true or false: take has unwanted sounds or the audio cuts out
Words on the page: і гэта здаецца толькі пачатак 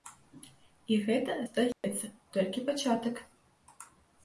true